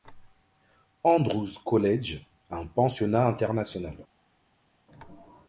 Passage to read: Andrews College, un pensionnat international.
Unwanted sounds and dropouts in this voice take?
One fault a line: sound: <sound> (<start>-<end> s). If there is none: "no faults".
no faults